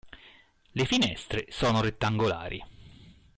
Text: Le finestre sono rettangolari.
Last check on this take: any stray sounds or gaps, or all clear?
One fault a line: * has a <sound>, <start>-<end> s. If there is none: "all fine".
all fine